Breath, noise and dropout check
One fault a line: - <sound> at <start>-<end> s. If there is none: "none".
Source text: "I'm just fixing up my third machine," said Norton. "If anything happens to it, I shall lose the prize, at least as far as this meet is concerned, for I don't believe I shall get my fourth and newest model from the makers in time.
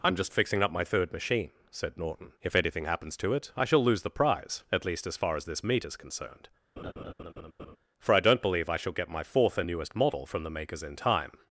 - laugh at 6.8-7.8 s